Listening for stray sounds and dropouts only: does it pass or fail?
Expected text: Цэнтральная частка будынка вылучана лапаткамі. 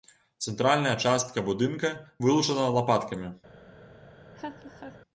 fail